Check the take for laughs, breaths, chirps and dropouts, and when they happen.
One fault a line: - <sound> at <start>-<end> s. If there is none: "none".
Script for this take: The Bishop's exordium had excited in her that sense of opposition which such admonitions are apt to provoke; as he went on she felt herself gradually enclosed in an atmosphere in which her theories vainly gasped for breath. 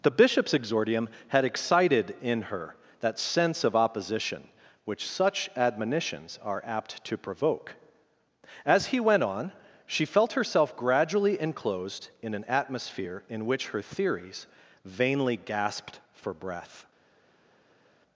none